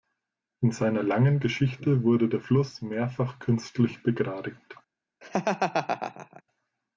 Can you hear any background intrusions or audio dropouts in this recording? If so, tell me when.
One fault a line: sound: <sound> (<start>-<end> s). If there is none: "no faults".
sound: laugh (5.2-6.4 s)